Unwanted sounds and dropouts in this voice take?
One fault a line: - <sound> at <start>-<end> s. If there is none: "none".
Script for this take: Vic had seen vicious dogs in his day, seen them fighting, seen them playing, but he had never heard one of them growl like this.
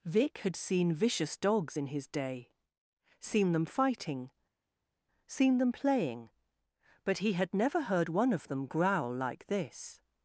none